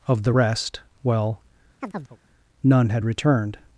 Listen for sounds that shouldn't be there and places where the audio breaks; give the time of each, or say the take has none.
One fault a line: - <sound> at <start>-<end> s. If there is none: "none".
- chirp at 1.8-2.2 s